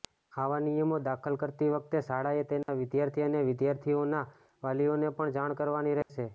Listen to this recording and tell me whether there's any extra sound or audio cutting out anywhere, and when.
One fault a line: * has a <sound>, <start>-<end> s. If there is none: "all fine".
* has a dropout, 2.6-2.7 s
* has a dropout, 6.0-6.1 s